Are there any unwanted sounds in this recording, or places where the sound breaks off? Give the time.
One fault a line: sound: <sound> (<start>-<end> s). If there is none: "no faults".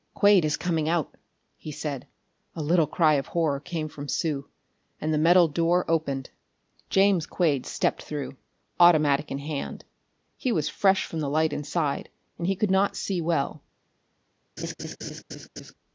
sound: laugh (14.6-15.7 s)